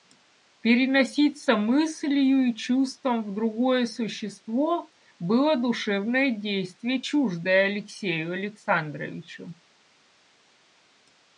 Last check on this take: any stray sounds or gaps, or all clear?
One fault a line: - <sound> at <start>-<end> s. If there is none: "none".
none